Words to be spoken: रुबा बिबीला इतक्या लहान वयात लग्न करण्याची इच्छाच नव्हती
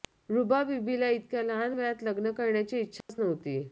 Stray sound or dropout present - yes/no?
yes